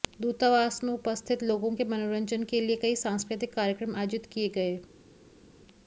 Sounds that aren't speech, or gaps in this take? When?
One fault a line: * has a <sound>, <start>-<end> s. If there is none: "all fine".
all fine